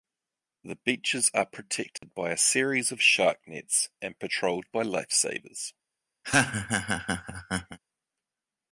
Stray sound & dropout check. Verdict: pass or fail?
fail